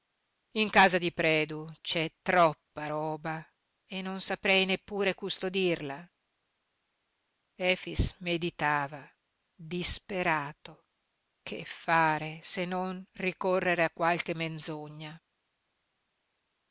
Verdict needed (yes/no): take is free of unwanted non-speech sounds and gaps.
yes